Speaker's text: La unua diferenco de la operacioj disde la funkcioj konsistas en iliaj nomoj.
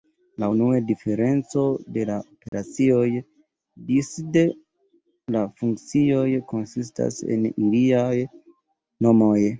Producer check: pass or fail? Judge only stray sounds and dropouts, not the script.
fail